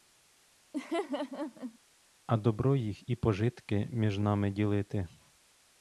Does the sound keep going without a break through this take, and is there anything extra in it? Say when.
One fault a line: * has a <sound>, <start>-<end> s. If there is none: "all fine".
* has a laugh, 0.7-1.8 s